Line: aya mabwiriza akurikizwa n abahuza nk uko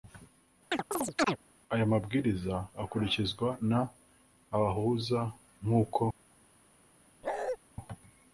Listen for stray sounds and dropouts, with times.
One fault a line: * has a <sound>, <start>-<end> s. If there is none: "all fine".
* has a chirp, 0.7-1.4 s
* has a bark, 7.2-7.6 s